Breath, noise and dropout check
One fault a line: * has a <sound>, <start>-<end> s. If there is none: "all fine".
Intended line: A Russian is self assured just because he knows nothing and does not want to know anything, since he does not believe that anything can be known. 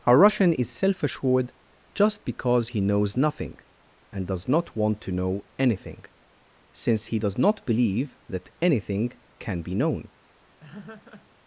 * has a laugh, 10.6-11.3 s